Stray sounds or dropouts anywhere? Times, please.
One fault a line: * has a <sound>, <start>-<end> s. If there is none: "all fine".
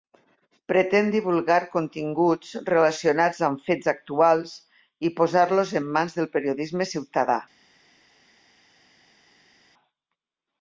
all fine